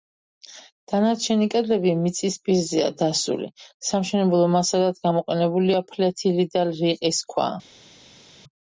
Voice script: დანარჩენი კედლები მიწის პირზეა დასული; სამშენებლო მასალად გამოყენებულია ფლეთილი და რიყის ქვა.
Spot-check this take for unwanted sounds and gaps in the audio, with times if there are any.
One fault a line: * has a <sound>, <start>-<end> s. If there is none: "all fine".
all fine